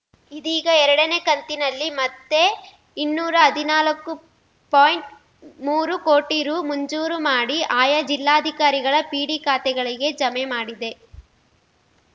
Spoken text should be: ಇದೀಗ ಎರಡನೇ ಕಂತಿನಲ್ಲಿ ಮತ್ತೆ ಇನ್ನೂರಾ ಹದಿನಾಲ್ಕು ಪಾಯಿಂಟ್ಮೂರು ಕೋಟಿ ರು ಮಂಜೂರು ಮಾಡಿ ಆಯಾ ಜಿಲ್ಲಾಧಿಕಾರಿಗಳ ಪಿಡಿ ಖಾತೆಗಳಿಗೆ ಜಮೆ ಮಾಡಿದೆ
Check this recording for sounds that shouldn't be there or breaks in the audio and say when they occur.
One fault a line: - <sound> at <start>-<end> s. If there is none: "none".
none